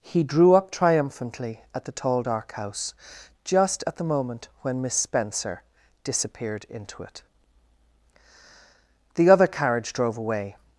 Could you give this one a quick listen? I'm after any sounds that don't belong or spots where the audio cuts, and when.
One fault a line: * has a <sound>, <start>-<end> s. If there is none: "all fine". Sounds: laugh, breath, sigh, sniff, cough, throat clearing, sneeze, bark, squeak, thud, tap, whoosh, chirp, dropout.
all fine